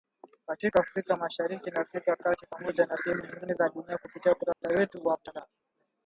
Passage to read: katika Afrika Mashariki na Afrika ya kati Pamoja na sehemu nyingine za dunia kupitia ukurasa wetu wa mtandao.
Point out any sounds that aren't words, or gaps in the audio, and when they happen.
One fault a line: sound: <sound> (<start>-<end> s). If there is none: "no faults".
sound: dropout (4.5-4.6 s)